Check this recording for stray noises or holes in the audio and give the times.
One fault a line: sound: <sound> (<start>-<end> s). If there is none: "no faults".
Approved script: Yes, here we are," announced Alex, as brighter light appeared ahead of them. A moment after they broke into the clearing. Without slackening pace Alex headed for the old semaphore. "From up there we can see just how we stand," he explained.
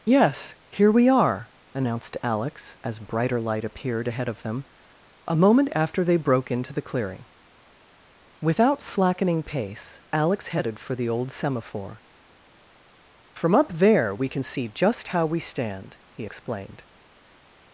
no faults